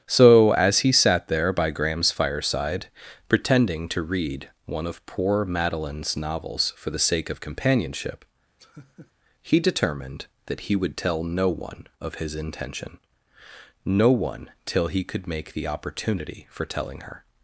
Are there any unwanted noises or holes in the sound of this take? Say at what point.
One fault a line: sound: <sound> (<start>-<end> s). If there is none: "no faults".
sound: laugh (8.6-9.1 s)